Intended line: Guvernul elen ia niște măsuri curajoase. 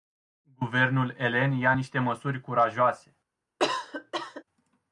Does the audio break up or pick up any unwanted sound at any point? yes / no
yes